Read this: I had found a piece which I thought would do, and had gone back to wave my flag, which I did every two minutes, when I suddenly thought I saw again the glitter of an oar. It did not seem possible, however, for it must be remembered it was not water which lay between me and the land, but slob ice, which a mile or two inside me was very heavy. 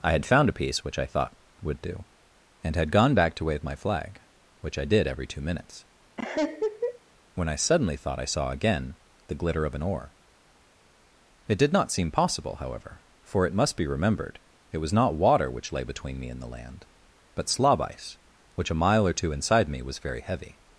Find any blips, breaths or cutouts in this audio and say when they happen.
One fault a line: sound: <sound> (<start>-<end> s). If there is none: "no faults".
sound: laugh (6.2-7.0 s)